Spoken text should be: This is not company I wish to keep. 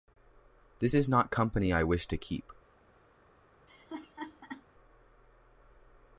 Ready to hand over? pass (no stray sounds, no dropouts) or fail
fail